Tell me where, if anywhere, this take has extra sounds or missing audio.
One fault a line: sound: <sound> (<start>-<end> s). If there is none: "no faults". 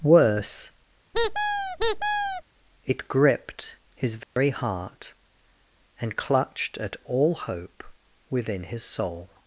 sound: squeak (1.1-2.4 s)
sound: dropout (4.2-4.4 s)